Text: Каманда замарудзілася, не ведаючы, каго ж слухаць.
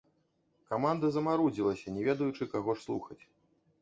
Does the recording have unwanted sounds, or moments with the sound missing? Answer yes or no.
no